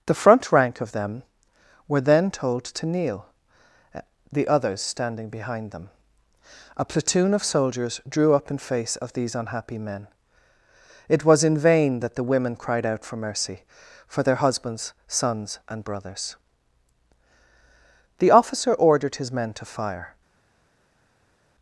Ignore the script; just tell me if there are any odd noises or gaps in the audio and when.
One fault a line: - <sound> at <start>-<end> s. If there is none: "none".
none